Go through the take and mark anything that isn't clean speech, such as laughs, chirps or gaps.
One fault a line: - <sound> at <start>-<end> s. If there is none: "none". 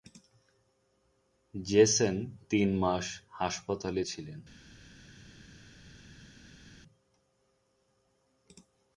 none